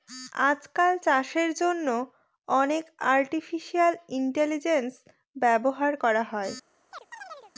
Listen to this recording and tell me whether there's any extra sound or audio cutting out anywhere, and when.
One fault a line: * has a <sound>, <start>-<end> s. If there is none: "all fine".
* has a chirp, 6.9-7.5 s